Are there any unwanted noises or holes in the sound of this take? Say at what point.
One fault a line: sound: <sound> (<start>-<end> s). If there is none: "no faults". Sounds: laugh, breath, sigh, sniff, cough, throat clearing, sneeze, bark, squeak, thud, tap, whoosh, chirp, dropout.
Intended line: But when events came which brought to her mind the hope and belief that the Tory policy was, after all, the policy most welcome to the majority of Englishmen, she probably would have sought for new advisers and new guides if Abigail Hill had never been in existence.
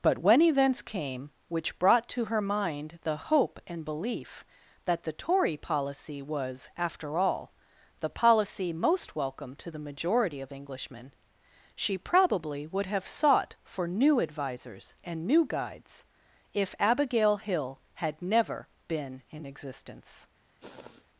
sound: sniff (20.6-21.1 s)